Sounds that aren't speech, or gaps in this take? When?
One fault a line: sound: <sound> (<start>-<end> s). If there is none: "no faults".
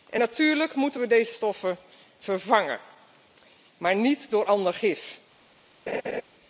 sound: laugh (5.9-6.2 s)